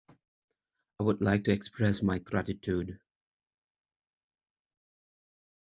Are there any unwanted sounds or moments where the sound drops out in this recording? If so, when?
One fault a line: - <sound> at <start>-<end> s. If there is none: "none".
none